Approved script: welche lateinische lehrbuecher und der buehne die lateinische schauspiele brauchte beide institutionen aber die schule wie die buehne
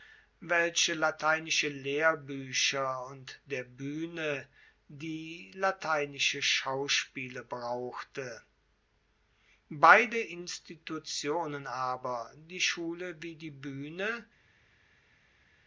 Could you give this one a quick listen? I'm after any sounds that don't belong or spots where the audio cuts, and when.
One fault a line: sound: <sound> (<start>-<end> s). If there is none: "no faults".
no faults